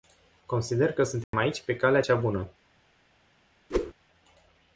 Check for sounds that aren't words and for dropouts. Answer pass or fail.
fail